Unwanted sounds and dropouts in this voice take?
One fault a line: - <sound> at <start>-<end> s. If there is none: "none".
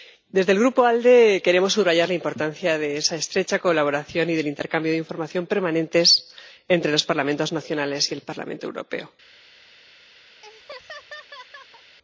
- laugh at 10.4-12.0 s